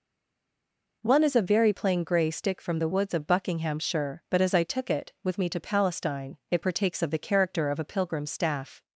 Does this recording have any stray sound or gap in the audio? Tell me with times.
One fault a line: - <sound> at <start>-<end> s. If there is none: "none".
none